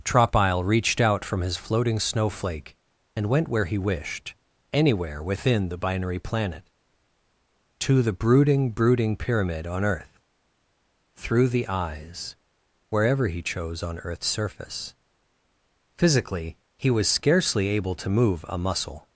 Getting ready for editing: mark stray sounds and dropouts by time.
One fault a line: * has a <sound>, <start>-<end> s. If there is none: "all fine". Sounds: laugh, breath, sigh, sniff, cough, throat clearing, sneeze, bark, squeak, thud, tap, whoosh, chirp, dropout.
all fine